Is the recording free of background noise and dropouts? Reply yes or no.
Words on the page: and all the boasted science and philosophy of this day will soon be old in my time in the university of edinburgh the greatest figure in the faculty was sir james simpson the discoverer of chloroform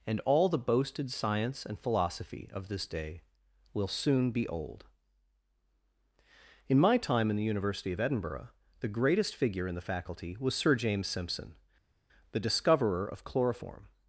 yes